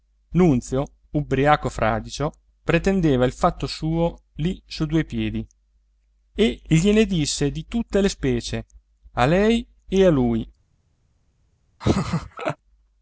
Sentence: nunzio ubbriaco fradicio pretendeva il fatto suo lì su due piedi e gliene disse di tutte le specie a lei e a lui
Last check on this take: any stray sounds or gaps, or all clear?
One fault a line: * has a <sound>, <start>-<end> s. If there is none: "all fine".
* has a laugh, 11.8-12.6 s